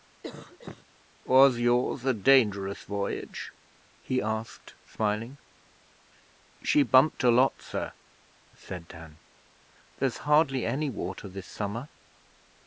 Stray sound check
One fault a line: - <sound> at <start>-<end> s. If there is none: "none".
- cough at 0.2-0.9 s